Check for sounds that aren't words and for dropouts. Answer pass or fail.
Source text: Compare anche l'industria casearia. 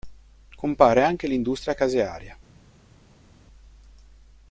pass